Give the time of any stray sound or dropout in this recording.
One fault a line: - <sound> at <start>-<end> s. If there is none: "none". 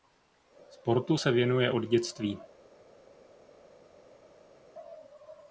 none